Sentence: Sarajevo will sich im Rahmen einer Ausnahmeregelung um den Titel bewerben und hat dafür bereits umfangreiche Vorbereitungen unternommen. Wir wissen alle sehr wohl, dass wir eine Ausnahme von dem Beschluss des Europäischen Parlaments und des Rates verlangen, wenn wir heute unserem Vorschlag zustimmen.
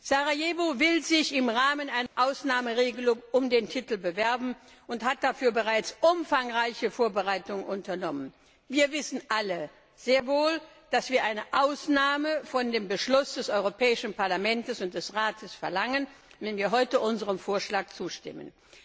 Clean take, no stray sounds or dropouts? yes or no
no